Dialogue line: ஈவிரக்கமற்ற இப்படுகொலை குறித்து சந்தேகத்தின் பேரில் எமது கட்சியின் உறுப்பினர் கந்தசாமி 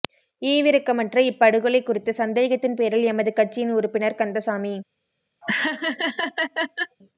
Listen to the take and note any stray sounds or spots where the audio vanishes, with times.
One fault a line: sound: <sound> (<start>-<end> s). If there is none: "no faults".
sound: laugh (5.4-7.0 s)